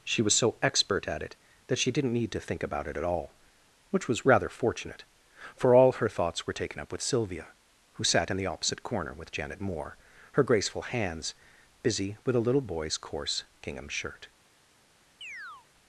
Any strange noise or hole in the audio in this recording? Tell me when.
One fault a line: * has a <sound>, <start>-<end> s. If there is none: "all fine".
* has a chirp, 15.2-15.7 s